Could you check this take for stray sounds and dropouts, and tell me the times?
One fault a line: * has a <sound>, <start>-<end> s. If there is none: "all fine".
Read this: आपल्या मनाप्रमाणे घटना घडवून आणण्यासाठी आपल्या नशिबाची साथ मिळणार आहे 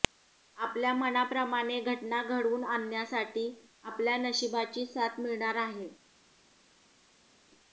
all fine